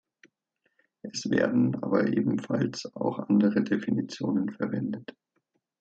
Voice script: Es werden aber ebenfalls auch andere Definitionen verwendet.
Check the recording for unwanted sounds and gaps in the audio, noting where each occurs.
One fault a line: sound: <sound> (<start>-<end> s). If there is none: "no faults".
no faults